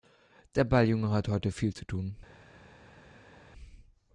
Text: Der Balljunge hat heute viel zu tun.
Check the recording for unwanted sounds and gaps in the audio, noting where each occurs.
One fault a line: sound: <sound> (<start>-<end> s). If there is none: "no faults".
no faults